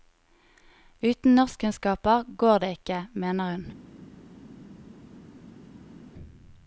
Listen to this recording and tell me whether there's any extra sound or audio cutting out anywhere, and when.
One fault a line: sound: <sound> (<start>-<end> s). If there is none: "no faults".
no faults